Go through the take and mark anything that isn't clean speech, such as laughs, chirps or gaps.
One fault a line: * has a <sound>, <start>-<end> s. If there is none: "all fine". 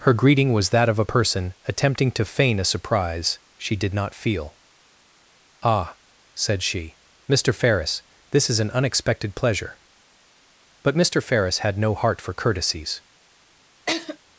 * has a laugh, 13.9-14.2 s